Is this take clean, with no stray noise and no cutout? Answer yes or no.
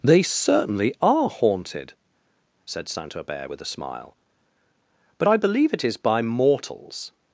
yes